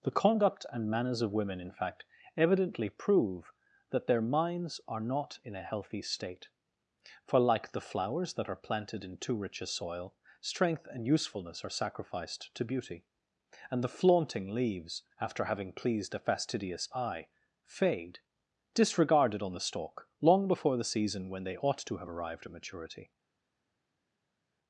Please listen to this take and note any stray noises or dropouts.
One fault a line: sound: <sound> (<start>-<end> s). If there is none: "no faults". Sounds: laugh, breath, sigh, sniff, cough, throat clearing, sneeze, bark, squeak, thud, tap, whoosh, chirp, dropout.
no faults